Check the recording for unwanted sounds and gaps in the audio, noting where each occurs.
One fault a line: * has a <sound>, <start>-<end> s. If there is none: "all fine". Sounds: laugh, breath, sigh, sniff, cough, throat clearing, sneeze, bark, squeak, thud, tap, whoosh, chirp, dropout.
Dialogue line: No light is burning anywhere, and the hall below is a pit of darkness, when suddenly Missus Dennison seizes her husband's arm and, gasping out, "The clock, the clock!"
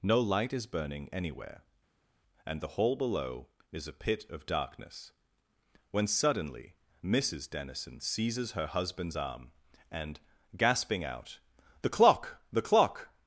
all fine